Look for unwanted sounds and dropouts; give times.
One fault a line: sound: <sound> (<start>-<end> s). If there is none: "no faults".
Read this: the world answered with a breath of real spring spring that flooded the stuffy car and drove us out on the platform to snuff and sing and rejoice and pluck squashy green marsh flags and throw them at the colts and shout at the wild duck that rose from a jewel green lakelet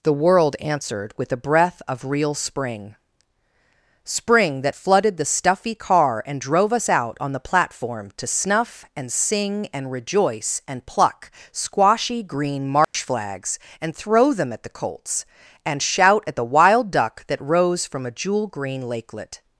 sound: dropout (12.8-12.9 s)